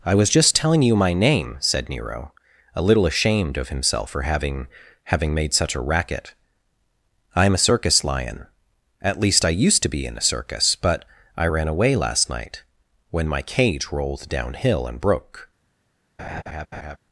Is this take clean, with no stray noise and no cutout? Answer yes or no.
no